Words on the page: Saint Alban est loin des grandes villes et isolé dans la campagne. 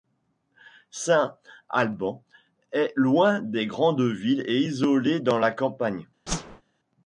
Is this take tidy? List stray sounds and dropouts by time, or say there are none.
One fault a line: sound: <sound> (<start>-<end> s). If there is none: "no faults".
sound: whoosh (6.3-6.6 s)